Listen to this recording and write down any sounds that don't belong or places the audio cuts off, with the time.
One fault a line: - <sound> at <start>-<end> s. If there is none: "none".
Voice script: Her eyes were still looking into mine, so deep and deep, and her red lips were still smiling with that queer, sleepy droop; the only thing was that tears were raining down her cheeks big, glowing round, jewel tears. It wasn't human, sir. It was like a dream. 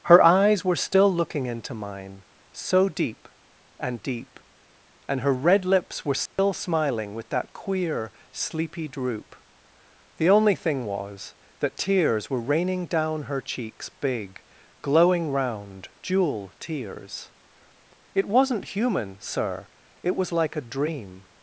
- dropout at 6.3-6.4 s